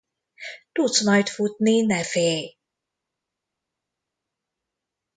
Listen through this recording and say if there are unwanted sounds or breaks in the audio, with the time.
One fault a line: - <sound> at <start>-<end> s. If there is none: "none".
none